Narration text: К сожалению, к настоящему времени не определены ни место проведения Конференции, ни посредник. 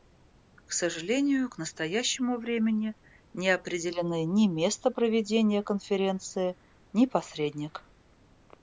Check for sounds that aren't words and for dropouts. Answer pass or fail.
pass